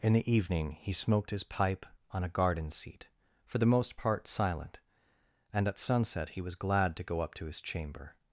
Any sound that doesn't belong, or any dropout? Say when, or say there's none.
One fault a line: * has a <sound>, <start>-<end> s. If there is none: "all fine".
all fine